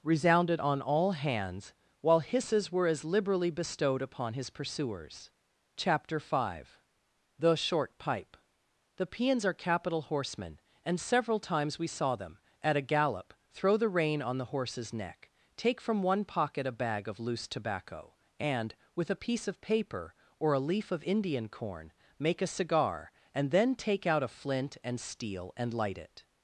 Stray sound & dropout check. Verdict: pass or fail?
pass